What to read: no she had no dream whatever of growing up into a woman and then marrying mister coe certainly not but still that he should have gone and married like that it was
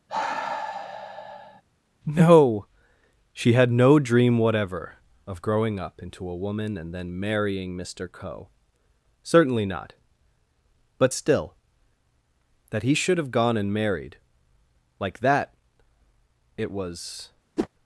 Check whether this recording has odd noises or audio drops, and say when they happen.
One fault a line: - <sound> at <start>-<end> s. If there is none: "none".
- sigh at 0.1-1.6 s
- whoosh at 17.6-17.7 s